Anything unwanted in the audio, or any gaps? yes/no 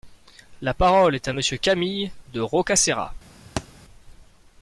yes